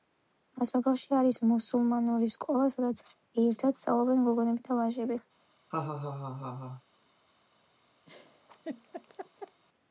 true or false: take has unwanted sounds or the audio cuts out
true